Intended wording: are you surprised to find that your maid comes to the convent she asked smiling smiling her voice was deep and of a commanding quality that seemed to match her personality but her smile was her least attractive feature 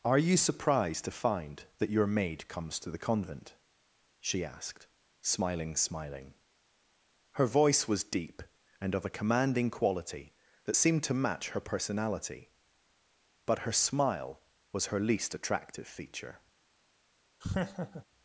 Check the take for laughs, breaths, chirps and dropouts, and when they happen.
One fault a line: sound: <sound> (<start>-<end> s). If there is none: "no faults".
sound: laugh (17.4-18.1 s)